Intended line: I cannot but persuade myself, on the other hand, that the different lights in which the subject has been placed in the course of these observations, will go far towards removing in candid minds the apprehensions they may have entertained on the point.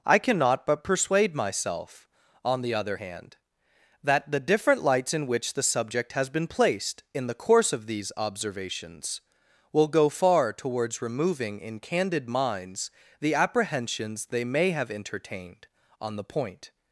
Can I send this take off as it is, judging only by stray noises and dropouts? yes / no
yes